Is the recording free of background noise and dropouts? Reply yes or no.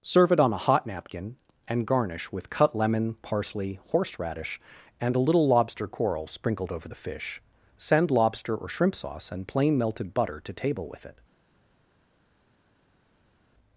yes